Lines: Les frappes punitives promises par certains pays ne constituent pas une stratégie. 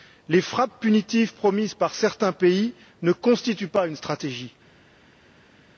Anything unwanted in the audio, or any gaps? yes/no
no